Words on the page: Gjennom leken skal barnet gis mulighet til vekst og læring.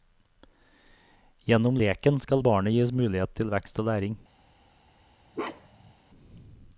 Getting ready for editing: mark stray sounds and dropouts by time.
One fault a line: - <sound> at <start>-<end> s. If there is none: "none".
- bark at 5.3-5.9 s